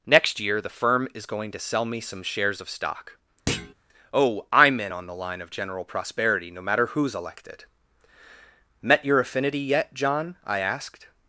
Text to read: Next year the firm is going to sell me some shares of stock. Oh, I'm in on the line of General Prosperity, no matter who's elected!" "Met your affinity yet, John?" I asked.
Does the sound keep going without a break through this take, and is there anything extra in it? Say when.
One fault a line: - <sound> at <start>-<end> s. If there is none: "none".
- thud at 3.5-3.7 s